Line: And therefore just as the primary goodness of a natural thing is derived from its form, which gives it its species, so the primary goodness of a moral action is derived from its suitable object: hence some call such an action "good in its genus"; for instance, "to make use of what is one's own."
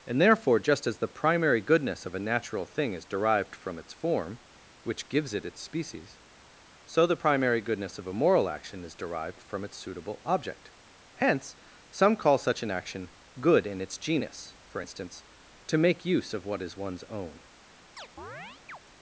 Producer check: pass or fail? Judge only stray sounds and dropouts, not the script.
fail